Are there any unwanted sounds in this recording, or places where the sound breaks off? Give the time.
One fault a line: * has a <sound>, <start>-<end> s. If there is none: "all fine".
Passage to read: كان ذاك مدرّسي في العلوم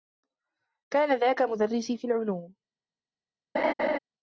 * has a laugh, 3.5-4.0 s